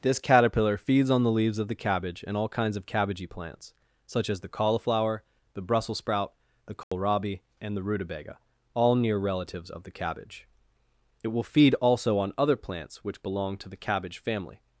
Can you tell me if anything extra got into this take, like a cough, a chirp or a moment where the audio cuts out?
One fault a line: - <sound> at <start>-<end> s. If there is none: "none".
- dropout at 6.8-6.9 s